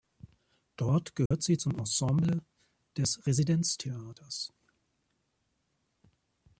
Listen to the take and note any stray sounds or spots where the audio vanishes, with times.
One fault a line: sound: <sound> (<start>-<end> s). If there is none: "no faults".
sound: dropout (1.3-1.3 s)